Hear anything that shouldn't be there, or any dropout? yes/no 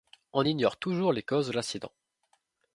no